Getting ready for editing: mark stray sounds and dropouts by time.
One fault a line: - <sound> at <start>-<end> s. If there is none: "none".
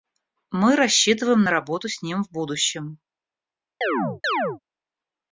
- chirp at 3.8-4.6 s